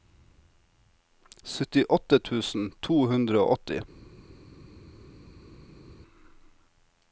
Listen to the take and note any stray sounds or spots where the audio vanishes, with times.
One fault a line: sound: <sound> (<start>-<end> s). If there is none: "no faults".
no faults